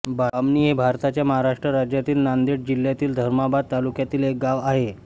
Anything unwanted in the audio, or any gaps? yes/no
no